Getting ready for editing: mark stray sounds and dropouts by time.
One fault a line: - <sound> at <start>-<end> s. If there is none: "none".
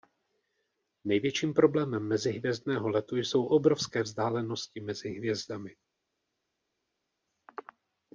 none